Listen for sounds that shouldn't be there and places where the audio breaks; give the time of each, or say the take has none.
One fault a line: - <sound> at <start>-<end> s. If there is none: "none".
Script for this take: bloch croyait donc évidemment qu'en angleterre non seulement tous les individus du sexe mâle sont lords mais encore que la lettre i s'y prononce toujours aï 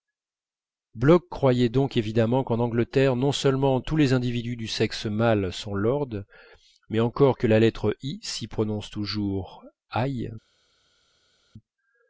none